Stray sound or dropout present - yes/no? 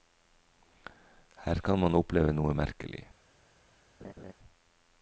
yes